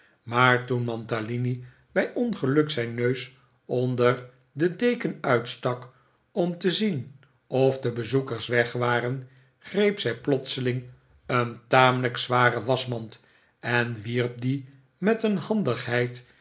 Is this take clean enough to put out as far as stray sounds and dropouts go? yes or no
yes